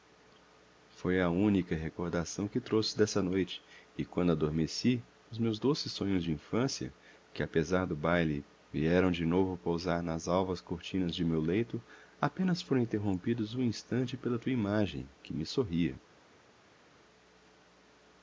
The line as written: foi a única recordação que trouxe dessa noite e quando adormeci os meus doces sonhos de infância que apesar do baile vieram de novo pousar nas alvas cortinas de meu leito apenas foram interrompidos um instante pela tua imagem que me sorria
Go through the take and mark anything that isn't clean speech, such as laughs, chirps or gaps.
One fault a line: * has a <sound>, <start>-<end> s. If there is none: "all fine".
all fine